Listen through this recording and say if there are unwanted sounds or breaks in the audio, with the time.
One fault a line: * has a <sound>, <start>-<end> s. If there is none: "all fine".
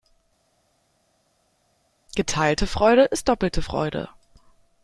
all fine